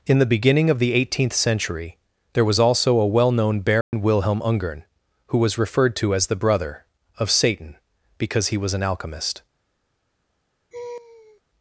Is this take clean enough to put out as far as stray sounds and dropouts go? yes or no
no